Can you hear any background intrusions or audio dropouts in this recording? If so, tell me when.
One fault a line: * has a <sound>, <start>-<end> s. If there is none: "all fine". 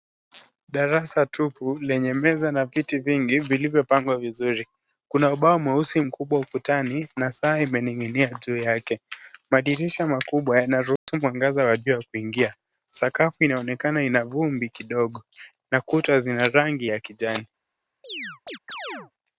* has a dropout, 11.0-11.1 s
* has a chirp, 18.0-19.1 s